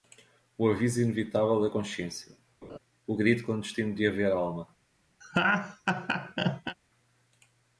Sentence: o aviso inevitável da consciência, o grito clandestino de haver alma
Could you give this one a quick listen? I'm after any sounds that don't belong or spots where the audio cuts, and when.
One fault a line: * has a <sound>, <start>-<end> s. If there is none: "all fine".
* has a laugh, 2.6-2.8 s
* has a laugh, 5.2-6.8 s